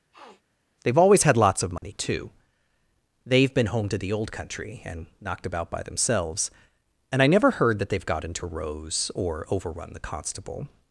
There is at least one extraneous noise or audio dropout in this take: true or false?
true